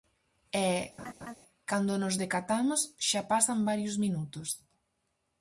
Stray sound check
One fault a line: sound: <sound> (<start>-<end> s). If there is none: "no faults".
sound: laugh (1.0-1.3 s)